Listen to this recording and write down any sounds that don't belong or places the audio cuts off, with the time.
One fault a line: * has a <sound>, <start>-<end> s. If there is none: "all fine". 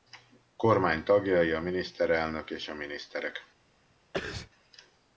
* has a sneeze, 4.1-4.5 s